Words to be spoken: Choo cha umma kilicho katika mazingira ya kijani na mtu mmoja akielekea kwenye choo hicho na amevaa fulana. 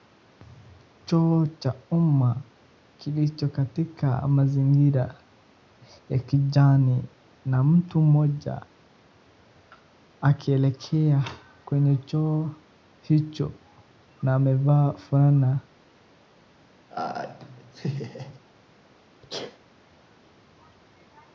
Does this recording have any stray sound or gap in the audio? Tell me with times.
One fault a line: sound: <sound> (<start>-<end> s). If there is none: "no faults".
sound: laugh (16.9-18.4 s)
sound: sneeze (19.2-19.6 s)